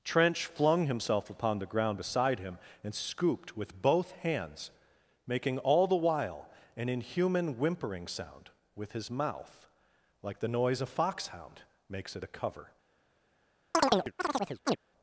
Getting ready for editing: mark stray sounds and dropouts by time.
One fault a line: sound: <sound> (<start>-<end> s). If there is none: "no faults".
sound: chirp (13.7-14.8 s)